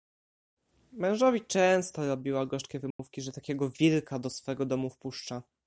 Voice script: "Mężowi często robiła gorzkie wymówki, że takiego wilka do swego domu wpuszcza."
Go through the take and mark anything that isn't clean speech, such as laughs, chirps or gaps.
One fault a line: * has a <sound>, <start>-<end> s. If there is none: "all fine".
* has a dropout, 2.9-3.0 s